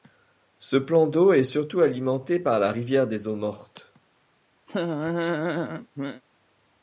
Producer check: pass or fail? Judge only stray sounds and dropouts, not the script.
fail